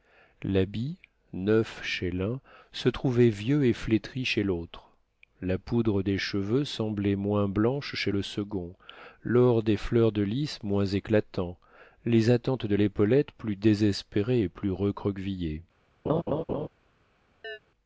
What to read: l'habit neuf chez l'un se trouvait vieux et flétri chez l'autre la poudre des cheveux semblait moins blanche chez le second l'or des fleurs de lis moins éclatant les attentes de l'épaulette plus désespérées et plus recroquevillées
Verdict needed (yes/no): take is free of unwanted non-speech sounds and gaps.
no